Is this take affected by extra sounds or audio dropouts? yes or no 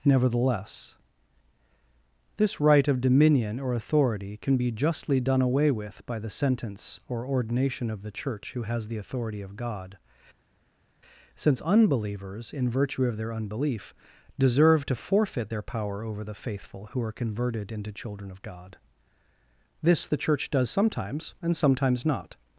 no